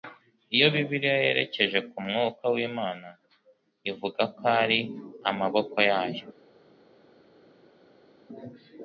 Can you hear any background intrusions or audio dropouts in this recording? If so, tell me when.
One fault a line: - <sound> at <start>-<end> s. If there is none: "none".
none